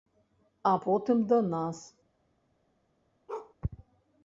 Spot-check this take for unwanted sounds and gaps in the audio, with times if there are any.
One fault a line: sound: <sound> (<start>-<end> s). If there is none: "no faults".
sound: bark (3.3-3.5 s)